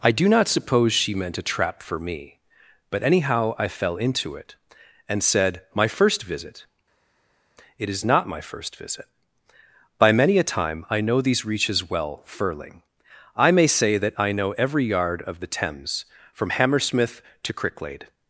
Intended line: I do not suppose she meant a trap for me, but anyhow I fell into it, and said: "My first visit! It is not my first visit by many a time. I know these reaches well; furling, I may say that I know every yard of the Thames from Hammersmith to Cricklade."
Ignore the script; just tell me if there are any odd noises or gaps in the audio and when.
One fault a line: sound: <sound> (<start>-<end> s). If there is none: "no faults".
no faults